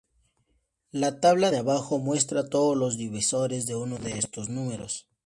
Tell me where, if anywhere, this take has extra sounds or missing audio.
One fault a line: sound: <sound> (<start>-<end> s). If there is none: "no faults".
no faults